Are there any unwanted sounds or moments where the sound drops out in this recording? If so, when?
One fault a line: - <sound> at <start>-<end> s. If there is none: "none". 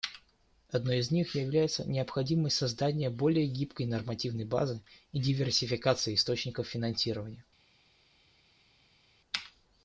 none